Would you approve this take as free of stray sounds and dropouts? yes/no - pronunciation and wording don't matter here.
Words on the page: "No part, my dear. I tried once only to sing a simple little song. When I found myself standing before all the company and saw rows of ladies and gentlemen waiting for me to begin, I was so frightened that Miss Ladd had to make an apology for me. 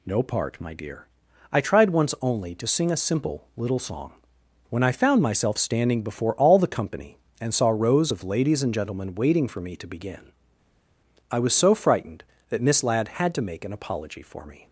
yes